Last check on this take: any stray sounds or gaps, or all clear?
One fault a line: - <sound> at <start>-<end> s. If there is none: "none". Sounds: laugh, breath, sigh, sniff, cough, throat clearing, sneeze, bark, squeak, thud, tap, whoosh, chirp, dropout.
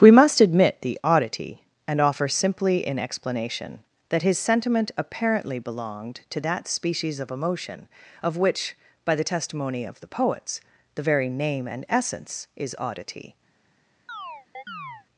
- chirp at 14.1-15.1 s